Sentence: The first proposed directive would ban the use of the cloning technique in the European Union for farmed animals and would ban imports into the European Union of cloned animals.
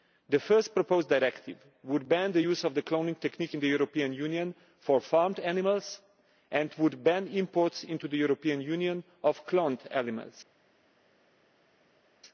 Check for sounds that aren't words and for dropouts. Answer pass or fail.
pass